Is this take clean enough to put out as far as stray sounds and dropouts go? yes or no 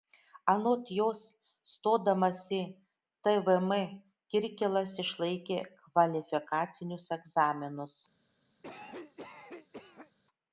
no